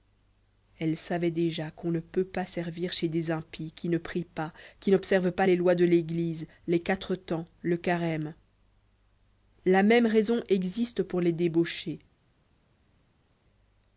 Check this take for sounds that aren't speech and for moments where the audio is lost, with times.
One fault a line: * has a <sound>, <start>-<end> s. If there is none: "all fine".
all fine